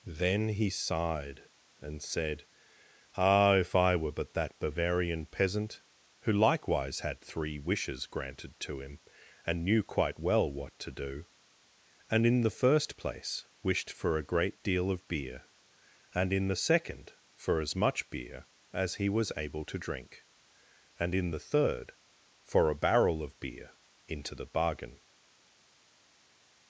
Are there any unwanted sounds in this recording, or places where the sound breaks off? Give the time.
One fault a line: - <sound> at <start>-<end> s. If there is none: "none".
none